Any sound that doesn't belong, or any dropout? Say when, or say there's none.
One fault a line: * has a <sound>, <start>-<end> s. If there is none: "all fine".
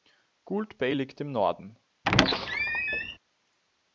* has a squeak, 2.0-3.2 s